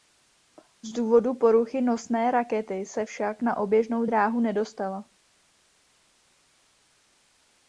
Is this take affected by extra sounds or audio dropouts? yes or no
no